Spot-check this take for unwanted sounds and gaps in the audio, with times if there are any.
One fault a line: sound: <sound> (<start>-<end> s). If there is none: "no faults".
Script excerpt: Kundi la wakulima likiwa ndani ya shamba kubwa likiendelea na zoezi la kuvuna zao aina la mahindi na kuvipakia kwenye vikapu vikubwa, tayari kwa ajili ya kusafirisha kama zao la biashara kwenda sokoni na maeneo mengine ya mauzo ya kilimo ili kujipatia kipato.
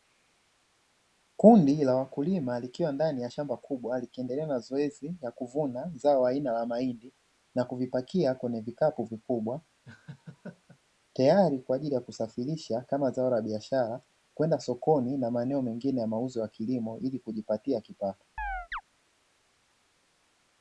sound: laugh (9.8-10.8 s)
sound: chirp (18.4-18.8 s)